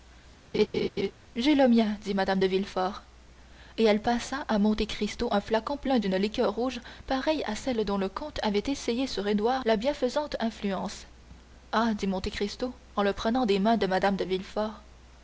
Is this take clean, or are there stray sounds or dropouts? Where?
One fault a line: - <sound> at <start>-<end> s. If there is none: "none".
- laugh at 0.5-1.1 s